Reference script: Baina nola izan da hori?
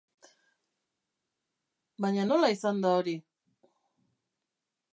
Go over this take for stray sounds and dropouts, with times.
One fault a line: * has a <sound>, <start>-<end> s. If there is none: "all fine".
all fine